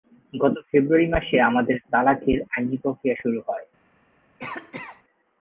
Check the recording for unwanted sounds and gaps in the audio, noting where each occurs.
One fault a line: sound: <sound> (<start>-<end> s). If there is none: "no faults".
sound: cough (4.4-5.0 s)